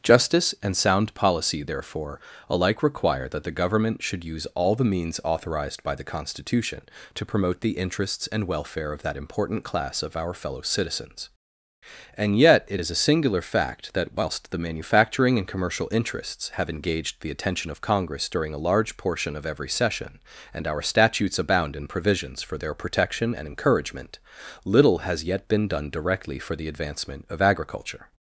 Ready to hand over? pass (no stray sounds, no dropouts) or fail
pass